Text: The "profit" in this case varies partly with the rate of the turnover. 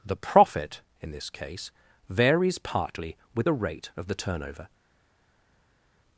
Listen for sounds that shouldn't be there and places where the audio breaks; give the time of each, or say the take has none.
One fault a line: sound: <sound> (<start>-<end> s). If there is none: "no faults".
no faults